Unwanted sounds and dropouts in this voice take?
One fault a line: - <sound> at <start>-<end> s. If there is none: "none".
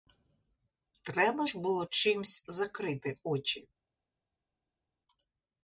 none